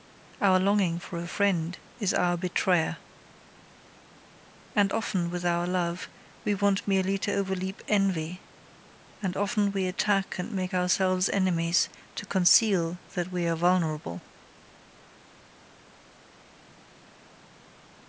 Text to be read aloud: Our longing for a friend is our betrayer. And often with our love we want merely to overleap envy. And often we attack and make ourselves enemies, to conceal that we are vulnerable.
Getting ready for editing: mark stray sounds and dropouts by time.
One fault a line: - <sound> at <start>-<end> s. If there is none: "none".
none